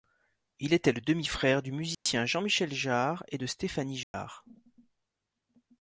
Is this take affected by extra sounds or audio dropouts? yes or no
yes